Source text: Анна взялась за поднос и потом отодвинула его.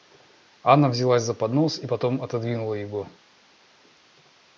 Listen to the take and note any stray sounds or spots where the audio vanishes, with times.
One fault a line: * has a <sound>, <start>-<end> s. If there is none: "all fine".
all fine